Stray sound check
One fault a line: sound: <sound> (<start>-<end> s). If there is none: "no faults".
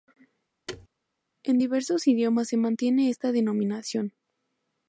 sound: thud (0.7-0.9 s)